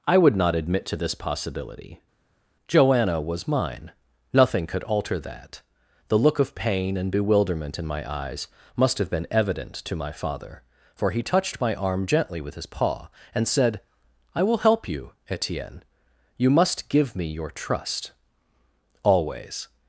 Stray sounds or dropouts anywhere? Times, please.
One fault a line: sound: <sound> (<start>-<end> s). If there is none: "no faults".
no faults